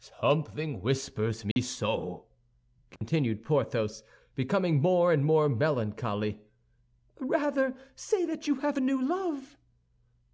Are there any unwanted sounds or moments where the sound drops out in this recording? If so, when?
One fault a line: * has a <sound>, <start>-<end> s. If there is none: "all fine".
* has a dropout, 1.5-1.6 s
* has a dropout, 3.0-3.0 s